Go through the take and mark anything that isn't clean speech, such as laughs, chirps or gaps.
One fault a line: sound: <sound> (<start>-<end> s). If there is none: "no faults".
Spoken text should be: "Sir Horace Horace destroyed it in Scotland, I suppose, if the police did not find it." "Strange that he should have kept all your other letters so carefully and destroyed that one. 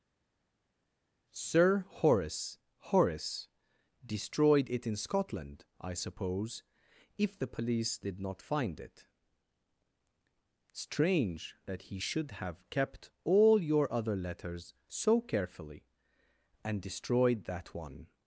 no faults